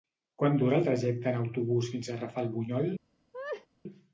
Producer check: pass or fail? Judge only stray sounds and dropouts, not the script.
fail